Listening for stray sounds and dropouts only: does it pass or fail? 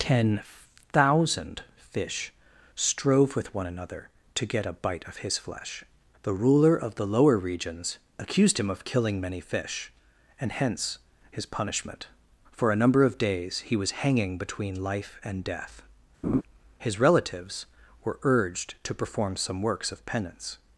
fail